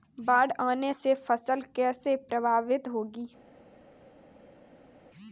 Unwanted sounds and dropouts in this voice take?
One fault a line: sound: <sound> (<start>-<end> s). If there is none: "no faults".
no faults